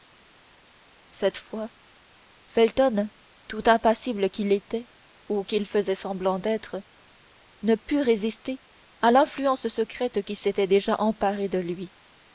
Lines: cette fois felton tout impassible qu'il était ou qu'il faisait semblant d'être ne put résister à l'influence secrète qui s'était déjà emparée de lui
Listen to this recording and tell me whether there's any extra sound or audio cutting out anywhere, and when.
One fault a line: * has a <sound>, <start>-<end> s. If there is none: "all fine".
all fine